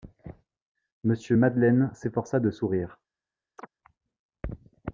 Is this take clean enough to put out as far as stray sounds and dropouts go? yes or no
no